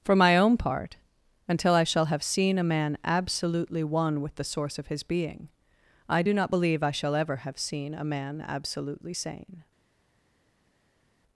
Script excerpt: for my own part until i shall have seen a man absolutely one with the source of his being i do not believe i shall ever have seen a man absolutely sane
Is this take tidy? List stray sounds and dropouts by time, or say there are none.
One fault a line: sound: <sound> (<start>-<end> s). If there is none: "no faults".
no faults